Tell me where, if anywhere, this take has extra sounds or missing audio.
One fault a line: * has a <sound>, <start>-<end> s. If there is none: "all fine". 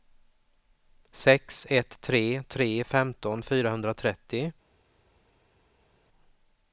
all fine